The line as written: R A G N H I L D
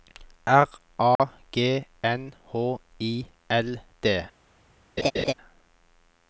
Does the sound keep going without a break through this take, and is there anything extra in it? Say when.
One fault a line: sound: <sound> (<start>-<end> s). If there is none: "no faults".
sound: dropout (1.2-1.2 s)
sound: laugh (5.0-5.3 s)